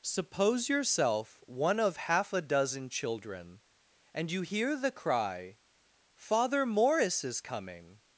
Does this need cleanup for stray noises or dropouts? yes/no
no